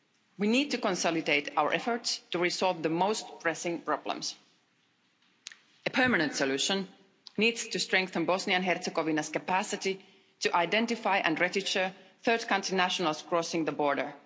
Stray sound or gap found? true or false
false